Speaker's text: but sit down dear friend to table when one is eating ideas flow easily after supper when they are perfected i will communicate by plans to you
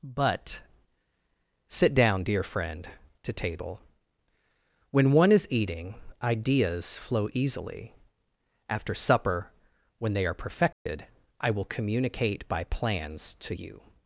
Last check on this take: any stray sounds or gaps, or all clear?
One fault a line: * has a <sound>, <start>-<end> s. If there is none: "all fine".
* has a dropout, 10.7-10.9 s